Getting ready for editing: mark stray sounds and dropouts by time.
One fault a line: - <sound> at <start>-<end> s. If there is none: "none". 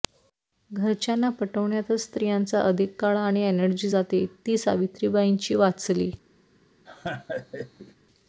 - laugh at 6.9-8.0 s